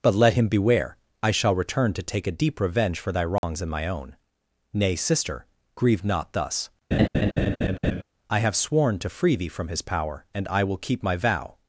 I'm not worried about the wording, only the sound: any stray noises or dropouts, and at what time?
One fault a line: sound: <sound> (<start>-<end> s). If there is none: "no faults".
sound: dropout (3.4-3.4 s)
sound: laugh (6.9-8.0 s)